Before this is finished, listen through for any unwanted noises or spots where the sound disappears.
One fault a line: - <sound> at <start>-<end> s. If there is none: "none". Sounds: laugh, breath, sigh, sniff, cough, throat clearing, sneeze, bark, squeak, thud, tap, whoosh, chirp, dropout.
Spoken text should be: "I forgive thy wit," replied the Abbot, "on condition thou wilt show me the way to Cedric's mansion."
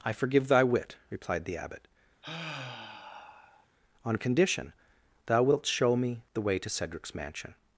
- sigh at 2.2-3.7 s